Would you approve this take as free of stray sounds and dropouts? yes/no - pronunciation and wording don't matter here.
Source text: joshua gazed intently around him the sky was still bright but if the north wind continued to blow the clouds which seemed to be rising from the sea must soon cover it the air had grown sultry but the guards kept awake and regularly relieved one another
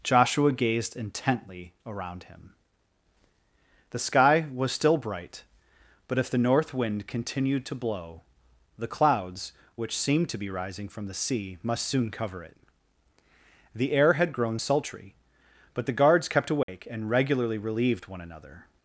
no